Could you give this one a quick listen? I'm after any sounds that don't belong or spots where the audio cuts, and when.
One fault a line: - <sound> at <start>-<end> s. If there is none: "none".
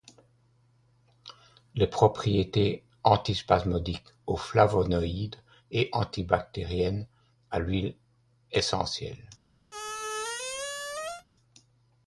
- squeak at 9.7-11.3 s